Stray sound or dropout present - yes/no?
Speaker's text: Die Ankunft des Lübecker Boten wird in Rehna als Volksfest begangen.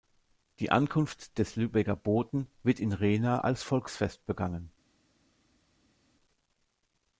no